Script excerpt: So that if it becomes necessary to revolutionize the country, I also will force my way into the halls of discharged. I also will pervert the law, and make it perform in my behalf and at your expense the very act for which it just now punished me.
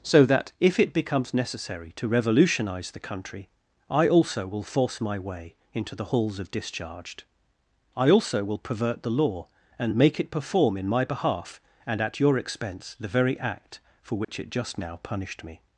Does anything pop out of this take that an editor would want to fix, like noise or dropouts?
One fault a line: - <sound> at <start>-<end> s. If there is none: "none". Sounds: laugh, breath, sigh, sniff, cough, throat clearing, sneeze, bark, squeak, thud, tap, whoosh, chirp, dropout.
- dropout at 14.2-14.3 s